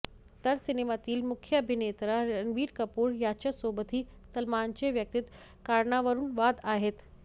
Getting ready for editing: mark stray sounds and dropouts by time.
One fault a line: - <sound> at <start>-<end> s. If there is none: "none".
none